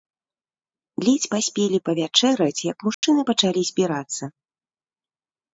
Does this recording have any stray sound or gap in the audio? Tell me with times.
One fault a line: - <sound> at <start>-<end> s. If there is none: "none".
- dropout at 2.9-3.0 s